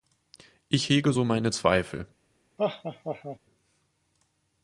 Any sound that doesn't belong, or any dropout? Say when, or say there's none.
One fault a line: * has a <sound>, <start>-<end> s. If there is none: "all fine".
* has a laugh, 2.6-3.4 s